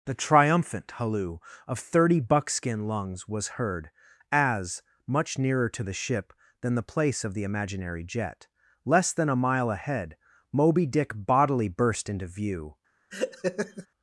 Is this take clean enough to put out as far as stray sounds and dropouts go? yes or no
no